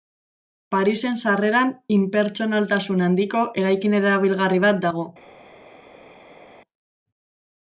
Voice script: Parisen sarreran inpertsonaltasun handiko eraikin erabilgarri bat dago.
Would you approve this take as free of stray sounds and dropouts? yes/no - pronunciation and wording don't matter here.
yes